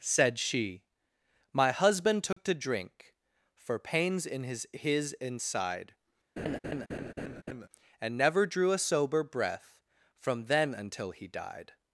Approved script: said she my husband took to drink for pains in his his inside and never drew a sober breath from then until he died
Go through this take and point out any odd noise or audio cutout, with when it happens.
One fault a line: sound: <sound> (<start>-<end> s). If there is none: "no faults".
sound: dropout (2.3-2.4 s)
sound: laugh (6.4-7.7 s)